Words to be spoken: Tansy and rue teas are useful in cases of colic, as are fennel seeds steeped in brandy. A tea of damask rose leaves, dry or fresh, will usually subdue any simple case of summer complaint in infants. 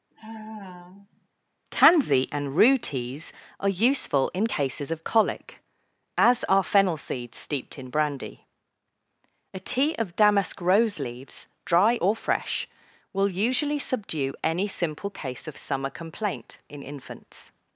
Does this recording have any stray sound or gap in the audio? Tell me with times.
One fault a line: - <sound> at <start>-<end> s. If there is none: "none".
- sigh at 0.1-1.3 s